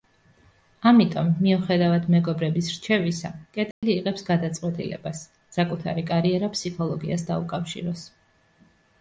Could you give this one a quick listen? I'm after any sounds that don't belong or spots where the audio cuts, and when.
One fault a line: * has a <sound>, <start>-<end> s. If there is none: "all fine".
* has a dropout, 3.7-3.8 s